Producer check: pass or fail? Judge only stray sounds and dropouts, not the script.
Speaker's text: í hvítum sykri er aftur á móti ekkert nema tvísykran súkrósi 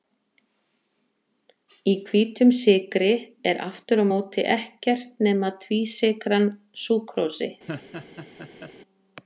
fail